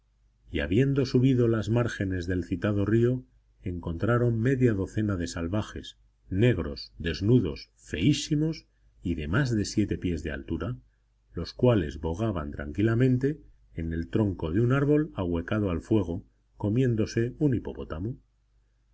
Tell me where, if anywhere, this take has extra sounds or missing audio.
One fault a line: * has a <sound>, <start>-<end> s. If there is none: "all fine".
all fine